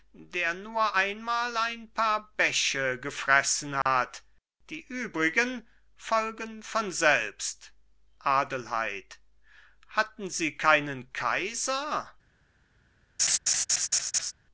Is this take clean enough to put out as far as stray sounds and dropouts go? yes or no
no